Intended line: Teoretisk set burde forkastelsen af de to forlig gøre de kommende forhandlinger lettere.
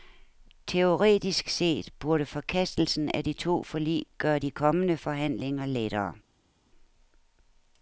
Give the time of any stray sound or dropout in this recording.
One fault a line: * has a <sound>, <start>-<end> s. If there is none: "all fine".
all fine